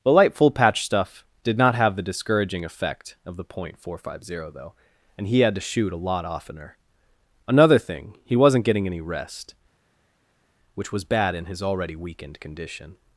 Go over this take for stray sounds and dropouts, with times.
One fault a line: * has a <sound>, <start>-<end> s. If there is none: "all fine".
all fine